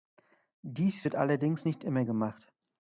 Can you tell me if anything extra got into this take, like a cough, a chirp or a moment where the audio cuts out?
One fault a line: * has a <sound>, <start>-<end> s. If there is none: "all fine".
all fine